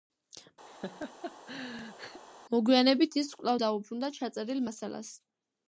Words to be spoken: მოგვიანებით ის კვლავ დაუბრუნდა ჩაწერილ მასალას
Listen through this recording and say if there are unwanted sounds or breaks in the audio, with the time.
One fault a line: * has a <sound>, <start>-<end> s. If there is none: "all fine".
* has a laugh, 0.7-2.2 s